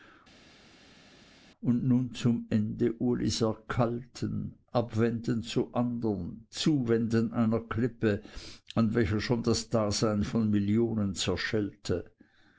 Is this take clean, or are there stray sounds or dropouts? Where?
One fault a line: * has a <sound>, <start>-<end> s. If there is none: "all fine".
all fine